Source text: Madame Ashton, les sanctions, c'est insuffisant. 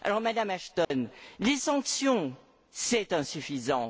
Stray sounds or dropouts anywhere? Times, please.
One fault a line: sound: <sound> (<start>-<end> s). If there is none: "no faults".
sound: dropout (0.8-0.9 s)